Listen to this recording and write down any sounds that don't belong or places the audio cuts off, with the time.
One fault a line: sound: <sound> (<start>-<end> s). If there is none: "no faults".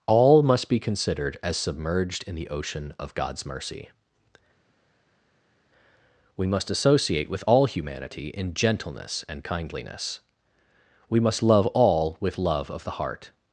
no faults